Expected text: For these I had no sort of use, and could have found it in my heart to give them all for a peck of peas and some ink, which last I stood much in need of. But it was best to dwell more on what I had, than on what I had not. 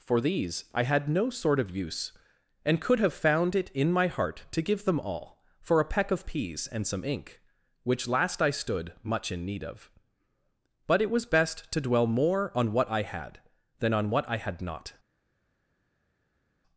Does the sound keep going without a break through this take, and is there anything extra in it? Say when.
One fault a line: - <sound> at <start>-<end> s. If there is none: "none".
none